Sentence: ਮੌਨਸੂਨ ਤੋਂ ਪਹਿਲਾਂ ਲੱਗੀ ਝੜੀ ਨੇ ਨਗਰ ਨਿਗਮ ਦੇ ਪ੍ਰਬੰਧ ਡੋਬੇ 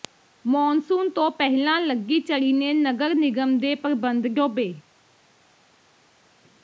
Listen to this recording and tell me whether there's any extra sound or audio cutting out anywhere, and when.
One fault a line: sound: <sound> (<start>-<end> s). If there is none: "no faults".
no faults